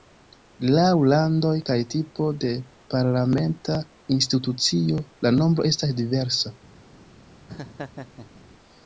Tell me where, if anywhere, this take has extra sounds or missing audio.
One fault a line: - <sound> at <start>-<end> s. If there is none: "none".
- laugh at 7.5-8.4 s